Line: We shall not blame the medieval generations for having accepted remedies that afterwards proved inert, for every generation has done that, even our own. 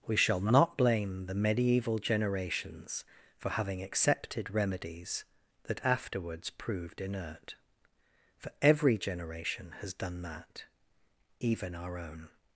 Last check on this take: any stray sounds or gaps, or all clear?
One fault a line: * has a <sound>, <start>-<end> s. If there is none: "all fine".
all fine